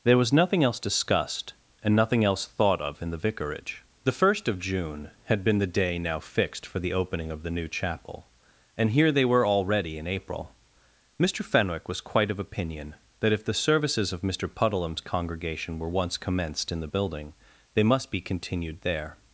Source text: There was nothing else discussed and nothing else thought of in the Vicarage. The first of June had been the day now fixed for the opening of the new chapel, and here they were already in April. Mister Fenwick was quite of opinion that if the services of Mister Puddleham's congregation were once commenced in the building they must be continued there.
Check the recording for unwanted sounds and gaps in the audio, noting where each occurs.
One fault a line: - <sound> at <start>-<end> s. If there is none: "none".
none